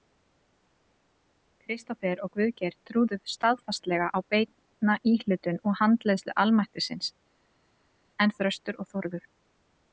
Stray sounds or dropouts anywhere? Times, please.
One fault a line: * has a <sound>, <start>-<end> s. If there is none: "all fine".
all fine